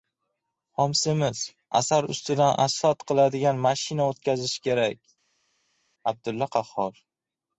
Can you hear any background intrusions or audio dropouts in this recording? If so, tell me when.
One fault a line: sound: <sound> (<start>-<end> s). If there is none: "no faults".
no faults